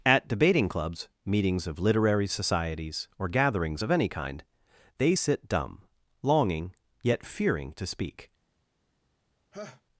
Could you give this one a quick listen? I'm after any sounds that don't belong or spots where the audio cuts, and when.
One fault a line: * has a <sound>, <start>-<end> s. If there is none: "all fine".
* has a laugh, 9.5-9.8 s